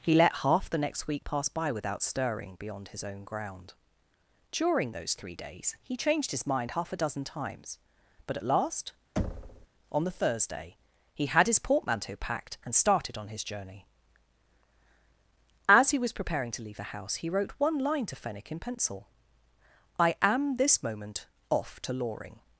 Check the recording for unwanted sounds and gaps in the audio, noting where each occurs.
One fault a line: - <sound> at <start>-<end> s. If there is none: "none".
- thud at 9.2-9.7 s